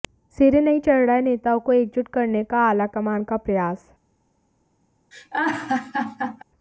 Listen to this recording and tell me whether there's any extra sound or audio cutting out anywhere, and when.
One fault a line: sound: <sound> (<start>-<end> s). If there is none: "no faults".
sound: laugh (5.1-6.4 s)